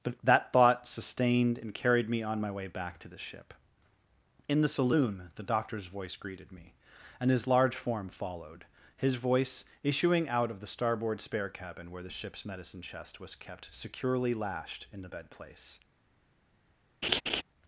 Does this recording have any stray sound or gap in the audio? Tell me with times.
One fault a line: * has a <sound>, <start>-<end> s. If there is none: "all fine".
* has a laugh, 17.0-17.4 s